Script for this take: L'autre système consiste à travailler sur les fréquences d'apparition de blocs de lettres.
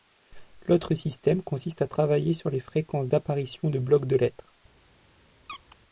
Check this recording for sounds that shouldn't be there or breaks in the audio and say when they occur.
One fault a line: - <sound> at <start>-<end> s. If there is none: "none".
- squeak at 5.5-5.8 s